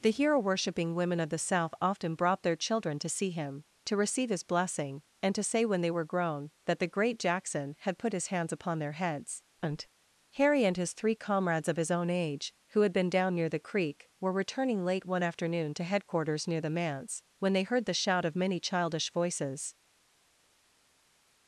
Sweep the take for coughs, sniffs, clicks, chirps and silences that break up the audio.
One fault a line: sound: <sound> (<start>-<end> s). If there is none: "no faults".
no faults